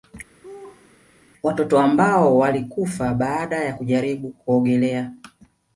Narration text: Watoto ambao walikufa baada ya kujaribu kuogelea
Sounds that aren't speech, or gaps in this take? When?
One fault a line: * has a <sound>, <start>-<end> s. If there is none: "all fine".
* has a laugh, 0.4-1.0 s